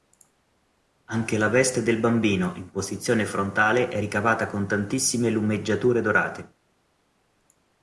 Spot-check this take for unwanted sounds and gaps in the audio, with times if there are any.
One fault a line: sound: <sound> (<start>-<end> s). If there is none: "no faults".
no faults